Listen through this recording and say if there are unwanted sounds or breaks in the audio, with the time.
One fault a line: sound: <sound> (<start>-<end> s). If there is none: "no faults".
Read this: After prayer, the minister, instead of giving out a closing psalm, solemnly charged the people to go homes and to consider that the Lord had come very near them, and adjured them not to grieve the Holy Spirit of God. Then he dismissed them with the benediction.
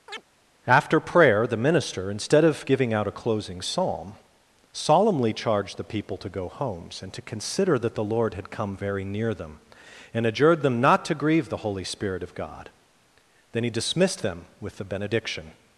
sound: chirp (0.1-0.2 s)